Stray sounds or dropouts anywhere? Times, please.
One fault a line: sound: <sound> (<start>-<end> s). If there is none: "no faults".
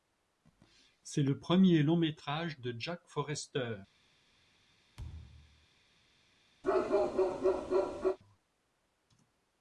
sound: thud (5.0-5.7 s)
sound: bark (6.6-8.2 s)